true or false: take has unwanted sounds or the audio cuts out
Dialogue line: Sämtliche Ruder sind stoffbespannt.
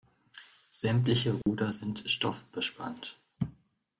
true